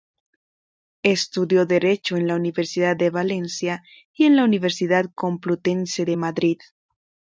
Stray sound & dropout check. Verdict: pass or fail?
pass